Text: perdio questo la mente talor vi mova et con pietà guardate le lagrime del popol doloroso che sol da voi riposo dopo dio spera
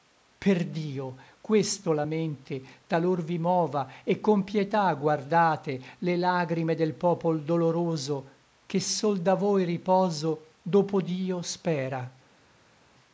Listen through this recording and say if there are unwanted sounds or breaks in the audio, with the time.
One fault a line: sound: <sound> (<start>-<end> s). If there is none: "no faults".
no faults